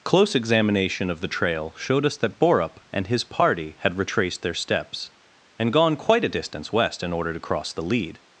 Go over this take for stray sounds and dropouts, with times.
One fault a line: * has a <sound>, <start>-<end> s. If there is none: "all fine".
all fine